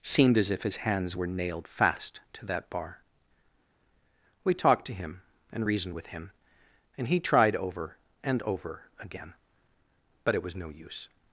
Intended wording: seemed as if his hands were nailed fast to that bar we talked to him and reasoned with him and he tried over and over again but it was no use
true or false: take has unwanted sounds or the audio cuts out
false